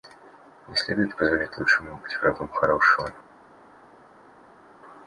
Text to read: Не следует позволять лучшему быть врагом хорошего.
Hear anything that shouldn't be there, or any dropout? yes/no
no